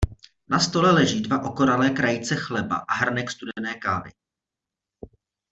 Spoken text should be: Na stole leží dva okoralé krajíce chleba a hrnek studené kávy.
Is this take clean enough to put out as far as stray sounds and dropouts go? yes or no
yes